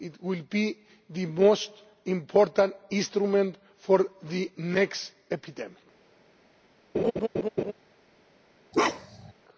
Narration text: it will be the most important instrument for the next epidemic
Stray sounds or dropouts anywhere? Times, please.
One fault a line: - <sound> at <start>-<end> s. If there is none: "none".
- laugh at 6.9-7.7 s
- bark at 8.7-9.3 s